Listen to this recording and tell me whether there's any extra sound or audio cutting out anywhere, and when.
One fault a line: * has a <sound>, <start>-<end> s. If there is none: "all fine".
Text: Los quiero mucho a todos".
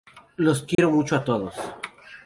* has a dropout, 0.7-0.8 s